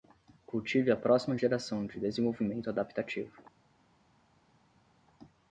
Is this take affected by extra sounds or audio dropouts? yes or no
no